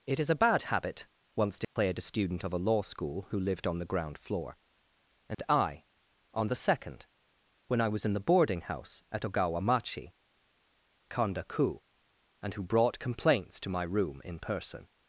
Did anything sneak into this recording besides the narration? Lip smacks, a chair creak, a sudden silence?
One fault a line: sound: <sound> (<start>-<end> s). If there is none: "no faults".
sound: dropout (1.6-1.8 s)
sound: dropout (5.3-5.4 s)